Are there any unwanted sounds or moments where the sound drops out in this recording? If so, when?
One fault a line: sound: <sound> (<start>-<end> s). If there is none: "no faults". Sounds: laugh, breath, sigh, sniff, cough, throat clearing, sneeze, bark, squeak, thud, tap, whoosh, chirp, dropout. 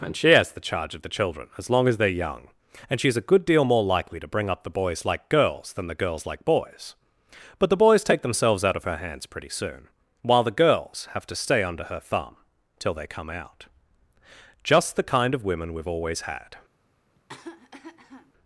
sound: cough (17.2-18.3 s)